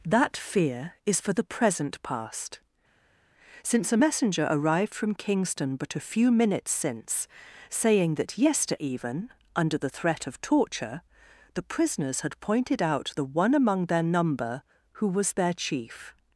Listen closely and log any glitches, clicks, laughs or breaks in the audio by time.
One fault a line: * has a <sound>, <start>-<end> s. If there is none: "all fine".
all fine